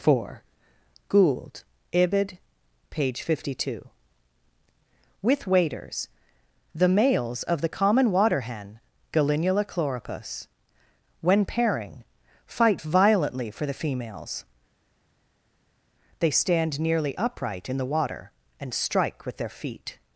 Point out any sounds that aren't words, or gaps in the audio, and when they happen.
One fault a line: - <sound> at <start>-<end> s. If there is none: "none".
none